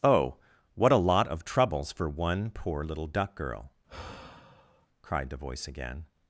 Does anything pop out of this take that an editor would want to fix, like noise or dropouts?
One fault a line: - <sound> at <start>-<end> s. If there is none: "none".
- sigh at 3.9-4.9 s